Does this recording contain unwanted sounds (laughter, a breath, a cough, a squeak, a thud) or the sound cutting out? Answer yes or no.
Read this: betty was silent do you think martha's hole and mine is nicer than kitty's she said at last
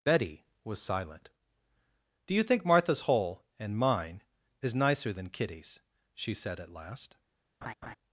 yes